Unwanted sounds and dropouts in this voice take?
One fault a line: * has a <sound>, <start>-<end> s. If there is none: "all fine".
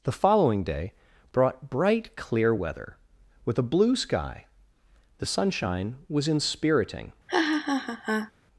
* has a laugh, 7.3-8.3 s